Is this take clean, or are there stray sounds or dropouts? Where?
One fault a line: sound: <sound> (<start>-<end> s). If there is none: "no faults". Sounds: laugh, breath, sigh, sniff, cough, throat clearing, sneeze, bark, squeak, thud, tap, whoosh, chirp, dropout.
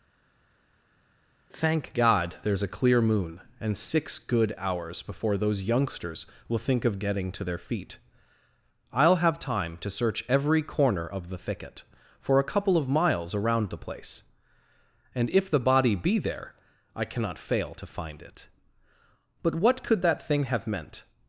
no faults